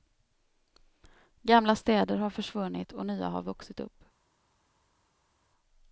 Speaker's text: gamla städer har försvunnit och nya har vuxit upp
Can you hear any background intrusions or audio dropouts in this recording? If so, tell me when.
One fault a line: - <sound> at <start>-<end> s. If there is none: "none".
none